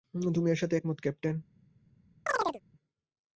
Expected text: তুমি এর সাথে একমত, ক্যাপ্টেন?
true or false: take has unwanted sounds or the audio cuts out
true